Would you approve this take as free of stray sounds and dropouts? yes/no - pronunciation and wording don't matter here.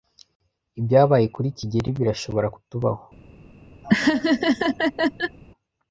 no